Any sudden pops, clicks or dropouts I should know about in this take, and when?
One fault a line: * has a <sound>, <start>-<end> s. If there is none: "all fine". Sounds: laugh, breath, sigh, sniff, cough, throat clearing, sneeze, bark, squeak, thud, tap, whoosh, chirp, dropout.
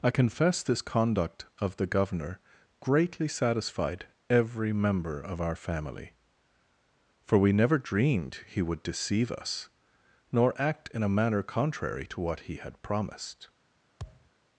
* has a thud, 14.0-14.3 s